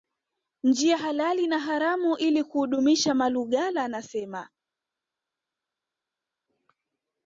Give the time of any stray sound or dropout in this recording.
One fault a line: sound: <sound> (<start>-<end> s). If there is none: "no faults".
no faults